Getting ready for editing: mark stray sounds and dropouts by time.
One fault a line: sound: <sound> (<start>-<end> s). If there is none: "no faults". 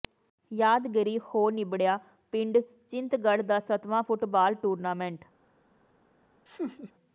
sound: laugh (6.5-6.9 s)